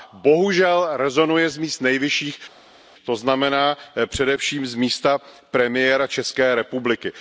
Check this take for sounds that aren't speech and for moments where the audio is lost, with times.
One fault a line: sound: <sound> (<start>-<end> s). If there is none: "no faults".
no faults